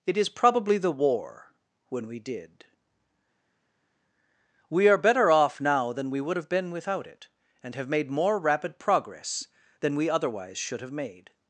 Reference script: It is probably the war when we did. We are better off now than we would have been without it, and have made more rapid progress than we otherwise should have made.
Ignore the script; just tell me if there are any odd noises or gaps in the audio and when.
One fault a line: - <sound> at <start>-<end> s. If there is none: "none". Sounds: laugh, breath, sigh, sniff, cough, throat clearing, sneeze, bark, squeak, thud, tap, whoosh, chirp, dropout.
none